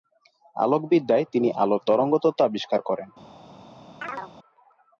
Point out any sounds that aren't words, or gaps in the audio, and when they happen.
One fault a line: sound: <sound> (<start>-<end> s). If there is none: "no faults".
sound: chirp (4.0-4.3 s)